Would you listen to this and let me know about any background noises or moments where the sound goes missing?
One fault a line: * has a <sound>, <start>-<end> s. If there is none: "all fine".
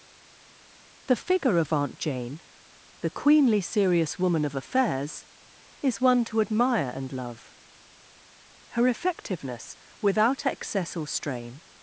all fine